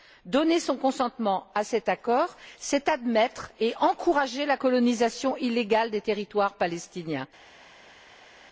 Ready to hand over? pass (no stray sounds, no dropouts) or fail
pass